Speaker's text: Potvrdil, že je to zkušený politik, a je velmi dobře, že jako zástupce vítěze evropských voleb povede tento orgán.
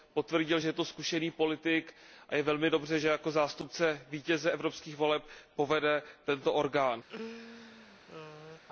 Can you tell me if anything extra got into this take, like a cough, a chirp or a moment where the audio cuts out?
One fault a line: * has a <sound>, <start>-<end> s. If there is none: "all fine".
* has a laugh, 7.1-8.6 s